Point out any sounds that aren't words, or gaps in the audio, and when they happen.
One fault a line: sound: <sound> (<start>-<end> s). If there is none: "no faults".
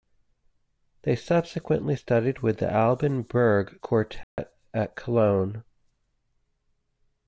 sound: dropout (4.2-4.4 s)